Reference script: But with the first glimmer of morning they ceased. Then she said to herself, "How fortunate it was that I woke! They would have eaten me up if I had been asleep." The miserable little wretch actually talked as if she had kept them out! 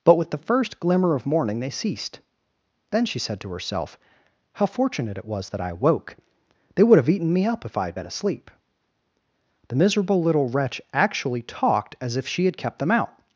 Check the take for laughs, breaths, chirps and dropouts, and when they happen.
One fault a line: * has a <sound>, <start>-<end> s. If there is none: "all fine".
all fine